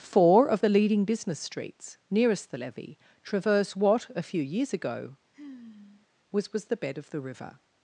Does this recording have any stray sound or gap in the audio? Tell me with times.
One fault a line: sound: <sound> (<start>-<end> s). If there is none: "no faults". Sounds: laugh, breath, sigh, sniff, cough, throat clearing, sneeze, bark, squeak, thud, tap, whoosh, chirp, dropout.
sound: sigh (5.3-6.1 s)